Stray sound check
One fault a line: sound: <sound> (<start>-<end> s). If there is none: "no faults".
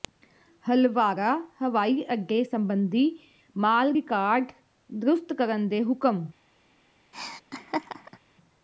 sound: laugh (7.1-8.2 s)